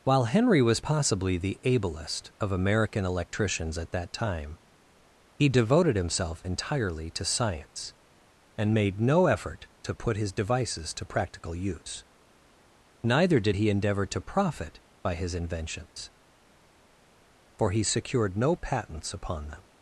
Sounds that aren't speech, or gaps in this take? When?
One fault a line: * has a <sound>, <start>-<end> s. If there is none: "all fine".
all fine